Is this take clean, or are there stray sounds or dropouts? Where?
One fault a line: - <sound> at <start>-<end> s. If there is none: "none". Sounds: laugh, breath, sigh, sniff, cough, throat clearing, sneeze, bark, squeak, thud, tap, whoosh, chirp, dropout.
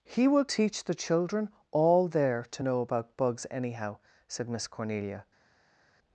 none